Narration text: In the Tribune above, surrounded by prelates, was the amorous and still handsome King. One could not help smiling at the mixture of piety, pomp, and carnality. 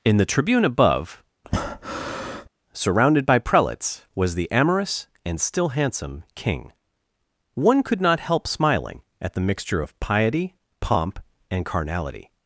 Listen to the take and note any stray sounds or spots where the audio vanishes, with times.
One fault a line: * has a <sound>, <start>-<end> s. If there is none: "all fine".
* has a breath, 1.4-2.5 s